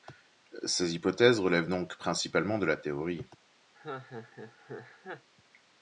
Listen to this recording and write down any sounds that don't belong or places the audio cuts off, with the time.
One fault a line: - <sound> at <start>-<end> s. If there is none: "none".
- laugh at 3.7-5.3 s